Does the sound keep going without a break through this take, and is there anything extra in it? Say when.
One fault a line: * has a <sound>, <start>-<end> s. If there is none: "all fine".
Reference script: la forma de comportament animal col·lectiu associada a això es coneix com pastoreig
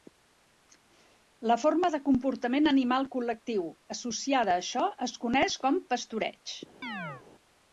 * has a chirp, 6.8-7.2 s